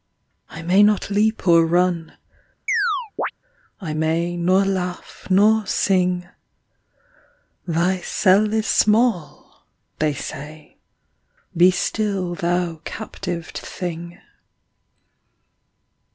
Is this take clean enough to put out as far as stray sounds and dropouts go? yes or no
no